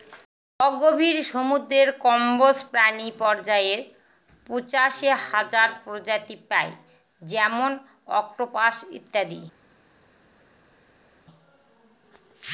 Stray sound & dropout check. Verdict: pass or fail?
pass